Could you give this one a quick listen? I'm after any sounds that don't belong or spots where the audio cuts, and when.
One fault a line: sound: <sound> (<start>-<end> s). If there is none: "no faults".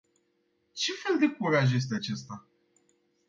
no faults